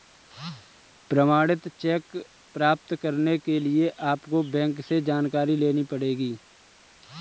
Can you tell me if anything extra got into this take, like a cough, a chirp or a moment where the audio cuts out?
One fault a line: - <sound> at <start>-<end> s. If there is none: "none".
none